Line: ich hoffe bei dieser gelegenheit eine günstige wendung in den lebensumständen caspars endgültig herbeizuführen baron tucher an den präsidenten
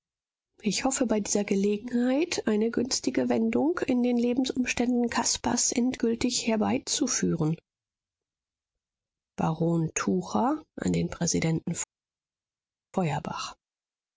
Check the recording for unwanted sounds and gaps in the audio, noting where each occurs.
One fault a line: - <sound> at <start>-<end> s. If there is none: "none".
none